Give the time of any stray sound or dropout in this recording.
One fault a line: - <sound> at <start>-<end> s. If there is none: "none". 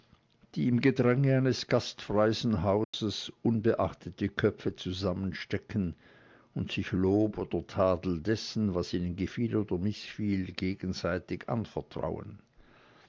- dropout at 2.8-2.9 s